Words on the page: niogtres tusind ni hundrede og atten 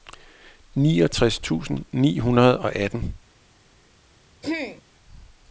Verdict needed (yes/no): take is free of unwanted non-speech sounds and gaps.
no